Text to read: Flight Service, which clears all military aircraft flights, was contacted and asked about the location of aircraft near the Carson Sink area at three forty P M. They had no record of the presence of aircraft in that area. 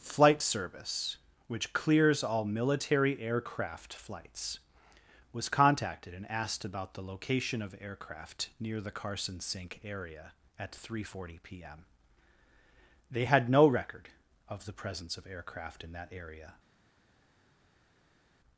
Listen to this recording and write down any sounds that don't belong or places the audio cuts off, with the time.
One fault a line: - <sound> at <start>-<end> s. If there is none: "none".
none